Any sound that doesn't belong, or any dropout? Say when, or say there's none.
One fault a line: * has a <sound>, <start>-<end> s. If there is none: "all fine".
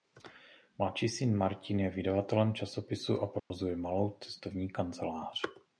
* has a dropout, 3.4-3.5 s